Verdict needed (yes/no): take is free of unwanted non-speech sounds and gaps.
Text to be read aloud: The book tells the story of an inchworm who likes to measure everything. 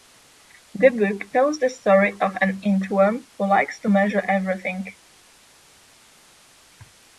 yes